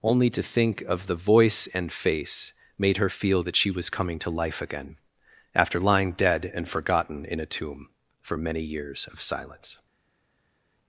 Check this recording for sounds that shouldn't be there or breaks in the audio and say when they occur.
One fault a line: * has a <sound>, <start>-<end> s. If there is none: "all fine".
all fine